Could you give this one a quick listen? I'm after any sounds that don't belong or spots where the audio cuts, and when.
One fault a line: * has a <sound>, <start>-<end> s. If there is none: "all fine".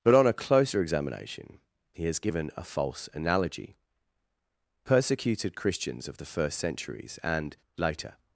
all fine